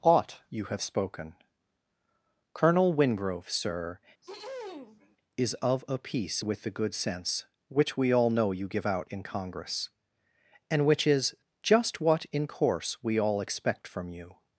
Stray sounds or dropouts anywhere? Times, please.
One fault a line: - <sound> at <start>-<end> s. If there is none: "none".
- throat clearing at 4.2-5.2 s